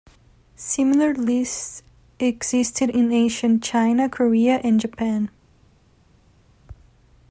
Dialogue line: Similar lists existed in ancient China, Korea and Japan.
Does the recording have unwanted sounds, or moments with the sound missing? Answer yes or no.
no